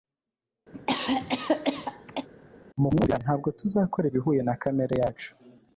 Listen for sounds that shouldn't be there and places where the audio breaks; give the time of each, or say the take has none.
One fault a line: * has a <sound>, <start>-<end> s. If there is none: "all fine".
* has a cough, 0.7-2.3 s